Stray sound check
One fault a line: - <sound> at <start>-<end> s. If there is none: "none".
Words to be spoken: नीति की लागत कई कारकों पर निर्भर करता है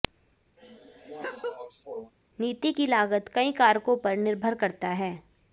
- laugh at 0.6-2.1 s